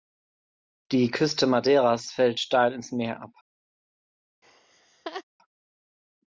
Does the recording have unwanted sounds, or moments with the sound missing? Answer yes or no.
yes